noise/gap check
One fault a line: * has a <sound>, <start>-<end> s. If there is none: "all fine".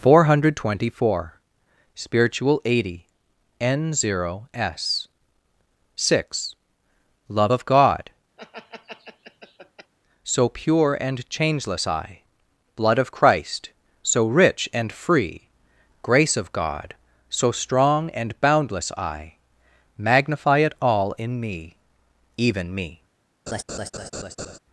* has a laugh, 8.4-9.9 s
* has a laugh, 23.5-24.6 s